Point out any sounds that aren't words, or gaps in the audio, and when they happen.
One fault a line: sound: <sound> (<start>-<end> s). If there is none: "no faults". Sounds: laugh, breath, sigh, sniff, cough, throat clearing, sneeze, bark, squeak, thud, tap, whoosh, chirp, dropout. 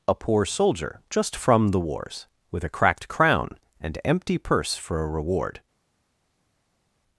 no faults